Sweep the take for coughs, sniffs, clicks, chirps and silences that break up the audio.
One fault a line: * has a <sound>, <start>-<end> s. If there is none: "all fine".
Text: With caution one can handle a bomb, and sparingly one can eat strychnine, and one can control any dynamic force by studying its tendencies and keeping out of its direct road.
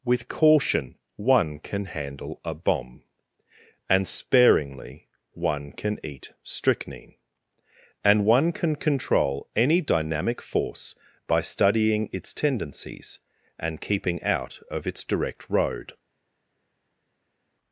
all fine